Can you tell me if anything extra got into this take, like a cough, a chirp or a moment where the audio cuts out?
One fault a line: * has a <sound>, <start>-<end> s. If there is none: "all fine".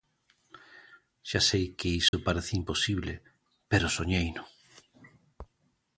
* has a dropout, 2.1-2.1 s